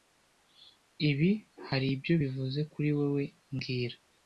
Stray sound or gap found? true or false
false